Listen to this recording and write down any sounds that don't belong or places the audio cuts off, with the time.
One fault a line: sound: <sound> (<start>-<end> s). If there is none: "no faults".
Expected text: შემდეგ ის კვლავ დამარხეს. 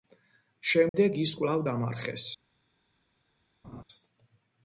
sound: dropout (0.9-0.9 s)
sound: laugh (3.6-3.8 s)